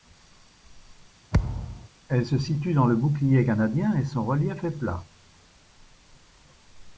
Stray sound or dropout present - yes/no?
yes